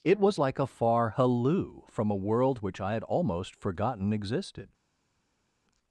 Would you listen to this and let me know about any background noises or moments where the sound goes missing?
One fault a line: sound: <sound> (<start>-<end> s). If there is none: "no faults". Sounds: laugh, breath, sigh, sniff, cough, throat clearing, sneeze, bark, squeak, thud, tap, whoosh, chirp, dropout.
no faults